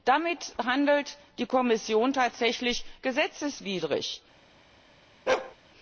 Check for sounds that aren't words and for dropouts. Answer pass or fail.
fail